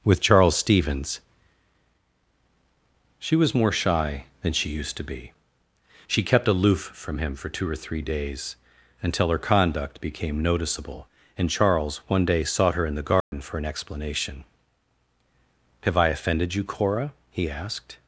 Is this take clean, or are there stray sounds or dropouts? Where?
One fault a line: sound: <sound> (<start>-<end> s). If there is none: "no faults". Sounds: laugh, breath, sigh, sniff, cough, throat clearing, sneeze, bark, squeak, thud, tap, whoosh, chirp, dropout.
sound: dropout (13.2-13.3 s)